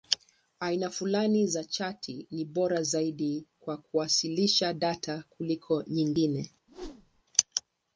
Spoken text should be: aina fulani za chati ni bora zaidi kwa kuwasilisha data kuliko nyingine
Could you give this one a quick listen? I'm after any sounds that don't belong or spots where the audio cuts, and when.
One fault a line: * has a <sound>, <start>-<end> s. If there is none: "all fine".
* has a whoosh, 6.7-7.2 s